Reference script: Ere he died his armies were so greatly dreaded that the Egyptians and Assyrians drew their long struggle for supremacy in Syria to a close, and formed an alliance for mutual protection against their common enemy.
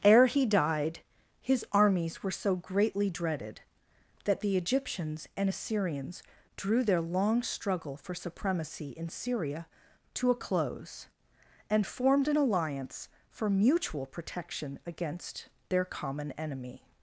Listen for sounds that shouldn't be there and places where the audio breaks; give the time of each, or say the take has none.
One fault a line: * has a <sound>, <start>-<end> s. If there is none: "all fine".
all fine